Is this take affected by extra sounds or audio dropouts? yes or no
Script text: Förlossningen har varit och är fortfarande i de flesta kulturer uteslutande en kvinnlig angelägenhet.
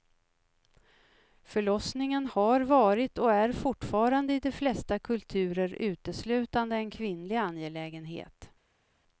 no